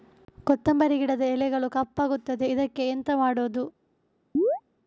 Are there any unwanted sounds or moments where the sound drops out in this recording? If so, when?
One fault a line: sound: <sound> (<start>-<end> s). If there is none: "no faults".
sound: chirp (4.3-4.6 s)